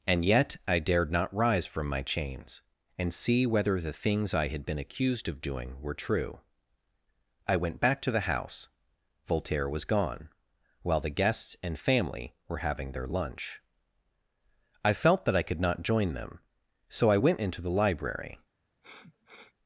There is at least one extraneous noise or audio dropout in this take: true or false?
true